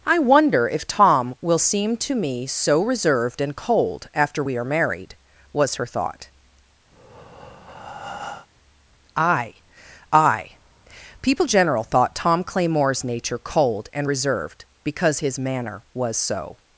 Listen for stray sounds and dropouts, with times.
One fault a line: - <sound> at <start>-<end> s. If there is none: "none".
- breath at 6.9-8.5 s